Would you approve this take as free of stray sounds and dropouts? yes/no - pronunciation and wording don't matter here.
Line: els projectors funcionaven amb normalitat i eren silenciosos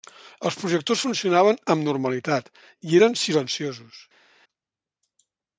yes